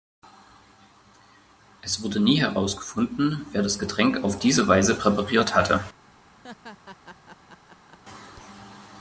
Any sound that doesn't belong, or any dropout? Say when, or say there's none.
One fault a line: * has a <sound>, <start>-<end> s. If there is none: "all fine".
* has a laugh, 6.4-8.0 s